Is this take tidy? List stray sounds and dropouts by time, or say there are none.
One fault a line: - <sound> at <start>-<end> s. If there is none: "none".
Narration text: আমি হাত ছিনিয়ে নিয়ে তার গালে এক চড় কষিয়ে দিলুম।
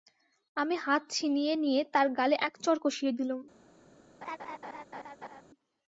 - laugh at 4.2-5.4 s